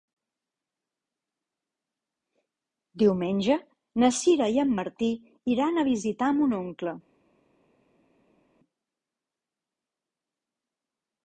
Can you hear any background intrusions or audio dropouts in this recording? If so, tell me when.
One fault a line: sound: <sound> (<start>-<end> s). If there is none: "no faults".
no faults